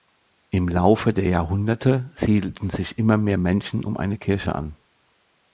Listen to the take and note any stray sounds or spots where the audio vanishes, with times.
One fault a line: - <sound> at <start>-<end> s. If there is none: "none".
none